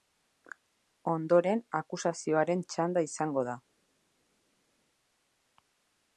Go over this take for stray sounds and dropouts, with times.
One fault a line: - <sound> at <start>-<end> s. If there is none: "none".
none